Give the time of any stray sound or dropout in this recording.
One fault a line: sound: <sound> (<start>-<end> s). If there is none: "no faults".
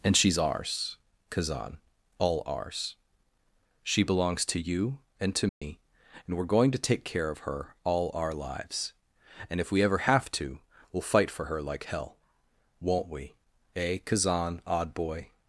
sound: dropout (5.5-5.6 s)